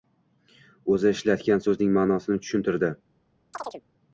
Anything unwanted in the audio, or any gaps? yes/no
yes